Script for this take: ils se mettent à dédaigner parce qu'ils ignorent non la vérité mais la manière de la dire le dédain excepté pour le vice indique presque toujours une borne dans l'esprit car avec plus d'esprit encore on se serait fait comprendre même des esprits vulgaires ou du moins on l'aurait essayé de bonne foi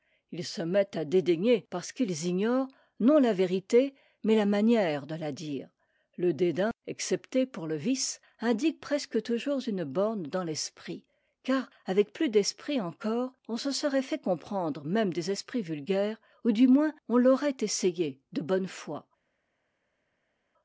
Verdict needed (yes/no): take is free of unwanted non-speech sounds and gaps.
yes